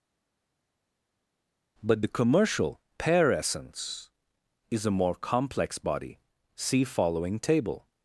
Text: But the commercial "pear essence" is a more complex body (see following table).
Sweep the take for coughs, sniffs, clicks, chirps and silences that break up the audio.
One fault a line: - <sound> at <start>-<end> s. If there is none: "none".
none